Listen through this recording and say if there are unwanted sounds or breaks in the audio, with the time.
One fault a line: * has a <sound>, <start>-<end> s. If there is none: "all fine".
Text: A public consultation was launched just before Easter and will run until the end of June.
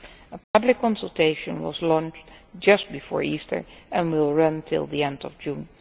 * has a dropout, 0.4-0.5 s